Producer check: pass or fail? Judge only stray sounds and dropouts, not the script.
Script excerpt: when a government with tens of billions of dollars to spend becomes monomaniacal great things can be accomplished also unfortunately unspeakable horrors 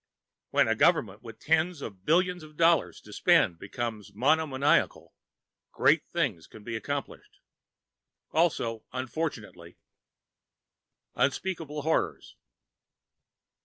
pass